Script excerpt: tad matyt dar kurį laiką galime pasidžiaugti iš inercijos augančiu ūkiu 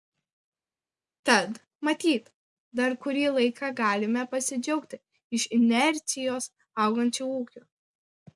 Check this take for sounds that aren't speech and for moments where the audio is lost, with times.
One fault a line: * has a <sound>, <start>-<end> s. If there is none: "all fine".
all fine